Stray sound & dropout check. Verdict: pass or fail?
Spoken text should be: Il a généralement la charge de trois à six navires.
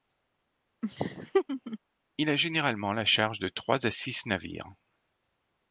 fail